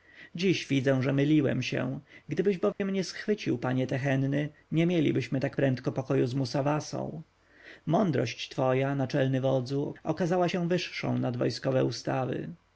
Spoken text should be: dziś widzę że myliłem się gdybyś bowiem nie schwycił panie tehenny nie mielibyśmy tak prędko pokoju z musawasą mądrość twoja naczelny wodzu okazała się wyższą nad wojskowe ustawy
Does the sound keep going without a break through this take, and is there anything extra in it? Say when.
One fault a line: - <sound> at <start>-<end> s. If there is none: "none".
- dropout at 2.7-2.8 s